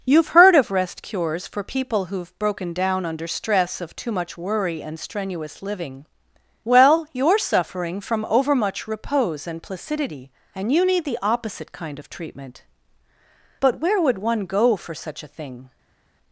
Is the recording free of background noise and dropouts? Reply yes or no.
yes